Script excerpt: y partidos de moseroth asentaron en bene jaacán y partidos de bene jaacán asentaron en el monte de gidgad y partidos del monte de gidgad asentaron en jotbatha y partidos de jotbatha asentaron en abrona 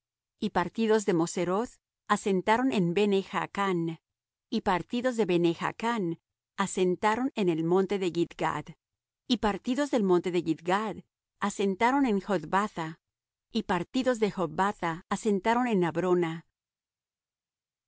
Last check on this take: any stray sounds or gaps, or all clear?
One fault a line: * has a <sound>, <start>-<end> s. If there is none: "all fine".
all fine